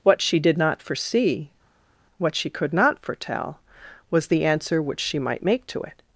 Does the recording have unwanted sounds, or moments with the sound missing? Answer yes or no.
no